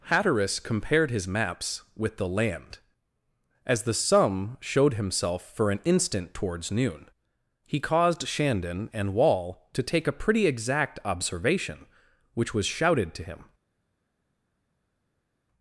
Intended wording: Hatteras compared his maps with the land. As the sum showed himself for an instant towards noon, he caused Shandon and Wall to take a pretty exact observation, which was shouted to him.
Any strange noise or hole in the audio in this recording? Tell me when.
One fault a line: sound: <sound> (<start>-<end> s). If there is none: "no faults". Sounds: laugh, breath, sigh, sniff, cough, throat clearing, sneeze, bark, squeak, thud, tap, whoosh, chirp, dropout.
no faults